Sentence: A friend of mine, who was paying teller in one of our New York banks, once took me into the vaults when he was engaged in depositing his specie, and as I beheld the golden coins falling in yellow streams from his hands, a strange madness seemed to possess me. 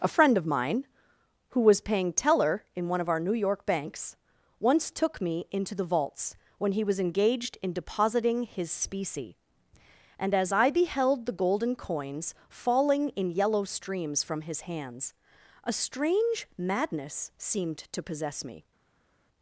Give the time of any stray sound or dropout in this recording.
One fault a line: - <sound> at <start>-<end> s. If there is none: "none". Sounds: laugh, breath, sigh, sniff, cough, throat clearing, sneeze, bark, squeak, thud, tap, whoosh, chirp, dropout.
none